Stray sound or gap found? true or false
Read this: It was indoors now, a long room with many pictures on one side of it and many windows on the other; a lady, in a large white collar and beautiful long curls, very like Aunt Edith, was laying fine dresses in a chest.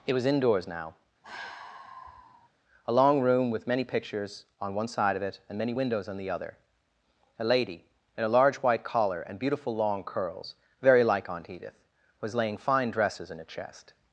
true